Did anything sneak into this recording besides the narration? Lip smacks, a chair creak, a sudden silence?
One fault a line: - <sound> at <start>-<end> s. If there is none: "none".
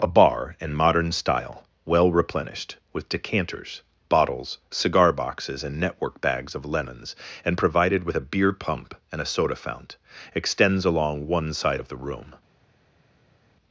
none